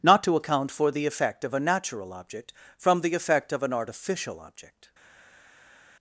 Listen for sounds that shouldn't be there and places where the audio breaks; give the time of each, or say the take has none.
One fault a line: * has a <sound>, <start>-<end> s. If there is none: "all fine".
all fine